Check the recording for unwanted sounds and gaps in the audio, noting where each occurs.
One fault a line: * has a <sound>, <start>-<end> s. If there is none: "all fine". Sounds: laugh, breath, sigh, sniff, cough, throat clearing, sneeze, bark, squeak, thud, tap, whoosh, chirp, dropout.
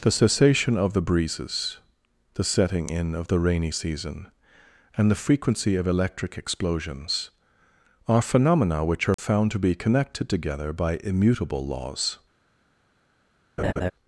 * has a dropout, 9.1-9.2 s
* has a laugh, 13.6-13.9 s